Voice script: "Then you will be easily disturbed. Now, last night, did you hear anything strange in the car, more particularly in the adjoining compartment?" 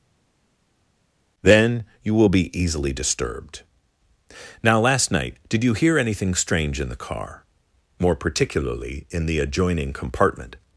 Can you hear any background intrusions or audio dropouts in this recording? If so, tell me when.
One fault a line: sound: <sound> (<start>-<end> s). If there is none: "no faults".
no faults